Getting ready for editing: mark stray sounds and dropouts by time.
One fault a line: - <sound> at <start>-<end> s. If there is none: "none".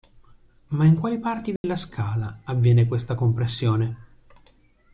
- dropout at 1.6-1.6 s